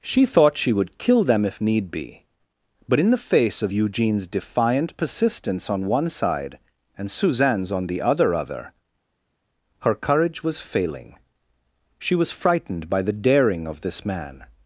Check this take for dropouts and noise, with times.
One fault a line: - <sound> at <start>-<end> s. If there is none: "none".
none